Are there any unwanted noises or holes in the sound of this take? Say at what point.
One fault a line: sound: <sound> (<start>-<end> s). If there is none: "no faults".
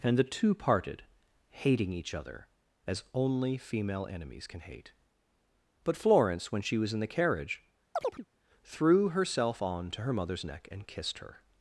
sound: chirp (7.9-8.3 s)